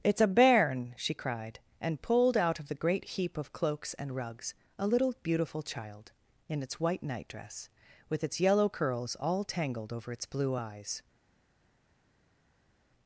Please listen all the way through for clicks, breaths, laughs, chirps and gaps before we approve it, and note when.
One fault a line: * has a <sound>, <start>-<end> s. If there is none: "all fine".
all fine